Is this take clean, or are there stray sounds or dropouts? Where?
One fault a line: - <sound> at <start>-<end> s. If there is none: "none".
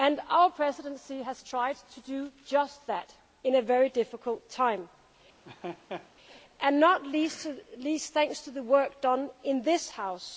- laugh at 5.4-6.1 s